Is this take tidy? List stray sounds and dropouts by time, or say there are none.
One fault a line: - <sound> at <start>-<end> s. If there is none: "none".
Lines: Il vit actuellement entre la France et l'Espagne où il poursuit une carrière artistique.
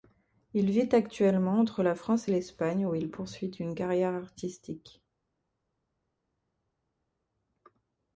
none